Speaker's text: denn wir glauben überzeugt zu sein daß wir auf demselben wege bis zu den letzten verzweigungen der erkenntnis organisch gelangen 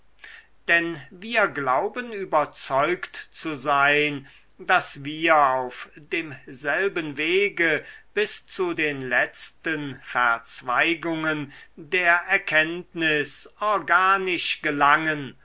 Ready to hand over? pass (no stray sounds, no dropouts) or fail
pass